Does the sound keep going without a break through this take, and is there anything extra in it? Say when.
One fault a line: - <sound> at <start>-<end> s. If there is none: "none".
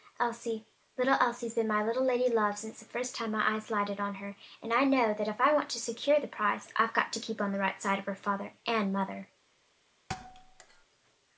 - thud at 10.1-10.9 s